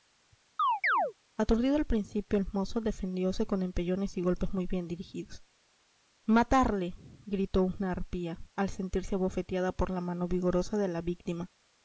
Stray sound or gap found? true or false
true